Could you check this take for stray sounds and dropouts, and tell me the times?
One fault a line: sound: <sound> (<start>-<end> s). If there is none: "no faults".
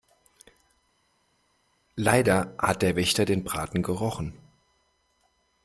no faults